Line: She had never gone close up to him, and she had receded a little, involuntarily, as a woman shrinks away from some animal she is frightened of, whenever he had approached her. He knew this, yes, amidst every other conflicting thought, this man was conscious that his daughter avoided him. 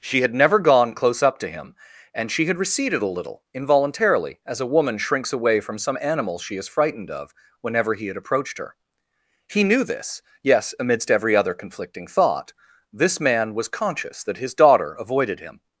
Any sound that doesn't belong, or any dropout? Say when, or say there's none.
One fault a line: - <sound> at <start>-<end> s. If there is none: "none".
none